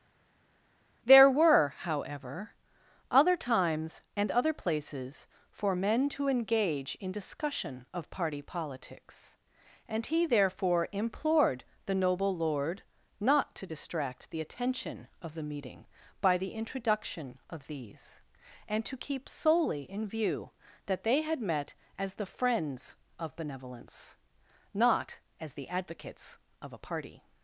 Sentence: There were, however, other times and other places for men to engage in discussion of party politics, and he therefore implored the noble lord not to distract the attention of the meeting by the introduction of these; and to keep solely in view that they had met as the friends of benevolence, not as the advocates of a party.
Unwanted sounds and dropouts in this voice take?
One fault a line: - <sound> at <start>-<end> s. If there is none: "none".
none